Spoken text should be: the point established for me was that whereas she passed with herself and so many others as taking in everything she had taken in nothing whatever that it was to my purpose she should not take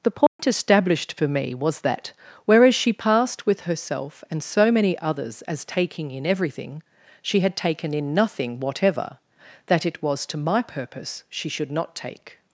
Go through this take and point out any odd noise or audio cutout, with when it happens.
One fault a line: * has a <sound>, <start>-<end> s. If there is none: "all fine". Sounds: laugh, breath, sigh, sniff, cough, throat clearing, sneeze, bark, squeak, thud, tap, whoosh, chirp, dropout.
* has a dropout, 0.3-0.4 s